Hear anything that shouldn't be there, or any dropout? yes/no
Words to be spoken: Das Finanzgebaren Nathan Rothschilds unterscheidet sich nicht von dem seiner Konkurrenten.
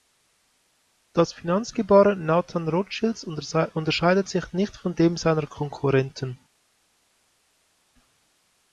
no